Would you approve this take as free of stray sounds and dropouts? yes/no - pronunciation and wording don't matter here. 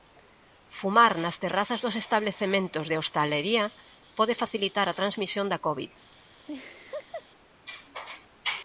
no